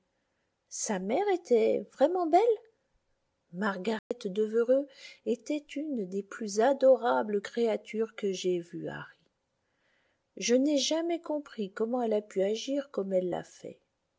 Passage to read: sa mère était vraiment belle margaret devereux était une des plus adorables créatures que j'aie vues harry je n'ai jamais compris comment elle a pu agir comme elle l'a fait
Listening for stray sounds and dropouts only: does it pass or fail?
fail